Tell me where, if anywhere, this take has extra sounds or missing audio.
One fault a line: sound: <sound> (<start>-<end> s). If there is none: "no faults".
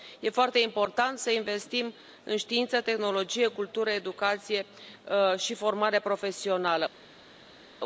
no faults